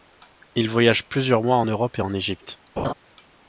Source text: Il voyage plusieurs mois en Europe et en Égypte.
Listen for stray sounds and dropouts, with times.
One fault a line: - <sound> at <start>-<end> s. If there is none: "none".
- laugh at 2.8-2.9 s